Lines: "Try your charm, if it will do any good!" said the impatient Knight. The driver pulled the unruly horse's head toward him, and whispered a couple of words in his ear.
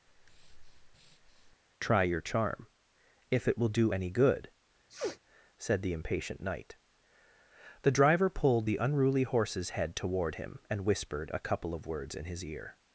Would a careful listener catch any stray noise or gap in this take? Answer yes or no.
yes